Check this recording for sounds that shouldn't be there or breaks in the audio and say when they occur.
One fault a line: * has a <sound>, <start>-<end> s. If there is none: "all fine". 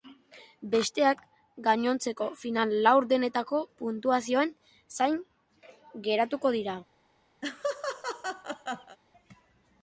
* has a laugh, 7.4-9.0 s